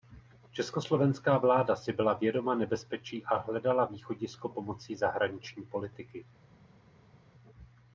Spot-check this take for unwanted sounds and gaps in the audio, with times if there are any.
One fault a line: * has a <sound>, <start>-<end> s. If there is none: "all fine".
all fine